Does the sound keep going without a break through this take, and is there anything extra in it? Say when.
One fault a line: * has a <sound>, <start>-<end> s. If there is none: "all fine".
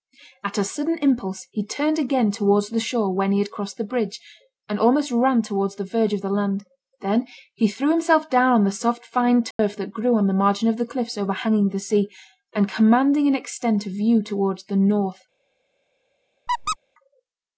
* has a dropout, 9.5-9.6 s
* has a squeak, 16.5-16.8 s